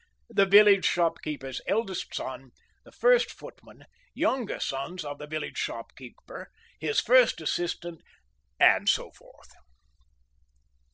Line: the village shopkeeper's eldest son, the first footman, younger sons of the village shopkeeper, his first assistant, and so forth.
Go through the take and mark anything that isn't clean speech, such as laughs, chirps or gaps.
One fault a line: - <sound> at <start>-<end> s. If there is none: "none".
none